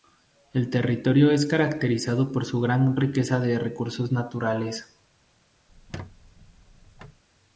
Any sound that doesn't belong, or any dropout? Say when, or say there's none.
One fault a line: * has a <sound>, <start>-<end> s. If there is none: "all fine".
* has a squeak, 5.7-7.2 s